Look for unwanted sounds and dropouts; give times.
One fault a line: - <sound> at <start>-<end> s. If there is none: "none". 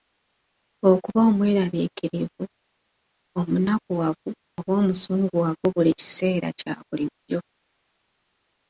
none